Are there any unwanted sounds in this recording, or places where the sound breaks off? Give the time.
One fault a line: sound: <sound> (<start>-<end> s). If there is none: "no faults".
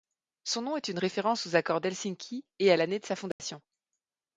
sound: dropout (3.3-3.4 s)